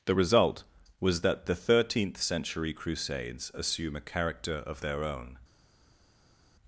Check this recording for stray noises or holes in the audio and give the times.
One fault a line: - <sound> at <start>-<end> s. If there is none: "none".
none